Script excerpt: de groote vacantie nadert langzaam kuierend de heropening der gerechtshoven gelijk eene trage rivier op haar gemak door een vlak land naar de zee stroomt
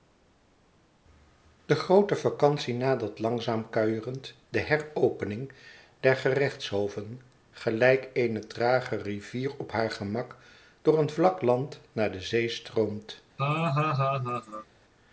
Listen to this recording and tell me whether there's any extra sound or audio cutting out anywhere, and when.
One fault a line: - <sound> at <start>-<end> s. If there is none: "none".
- laugh at 13.4-14.7 s